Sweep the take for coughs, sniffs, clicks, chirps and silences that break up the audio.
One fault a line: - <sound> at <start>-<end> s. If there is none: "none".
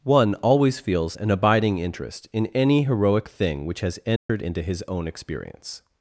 - dropout at 4.2-4.3 s